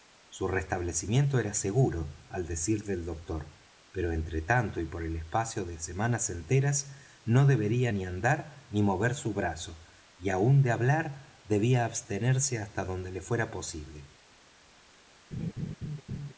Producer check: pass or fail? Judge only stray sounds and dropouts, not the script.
fail